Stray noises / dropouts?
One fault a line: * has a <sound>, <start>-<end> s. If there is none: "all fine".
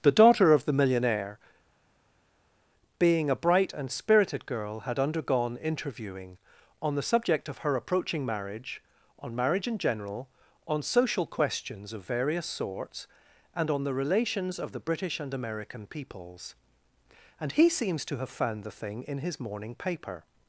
all fine